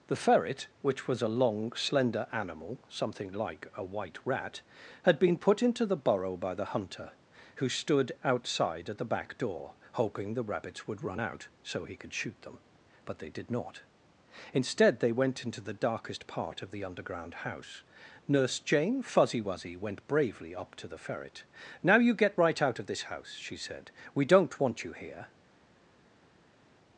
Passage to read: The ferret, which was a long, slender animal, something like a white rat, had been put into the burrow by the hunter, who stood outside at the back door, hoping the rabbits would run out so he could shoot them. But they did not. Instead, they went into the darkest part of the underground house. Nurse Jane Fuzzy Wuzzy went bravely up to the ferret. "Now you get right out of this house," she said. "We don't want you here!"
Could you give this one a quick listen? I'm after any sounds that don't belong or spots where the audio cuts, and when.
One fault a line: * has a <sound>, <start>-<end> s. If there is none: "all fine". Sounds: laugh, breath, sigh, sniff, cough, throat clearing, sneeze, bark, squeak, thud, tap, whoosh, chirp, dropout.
all fine